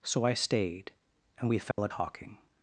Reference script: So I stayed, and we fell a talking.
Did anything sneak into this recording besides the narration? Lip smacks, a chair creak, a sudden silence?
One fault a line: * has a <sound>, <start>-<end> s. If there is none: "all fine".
* has a dropout, 1.7-1.8 s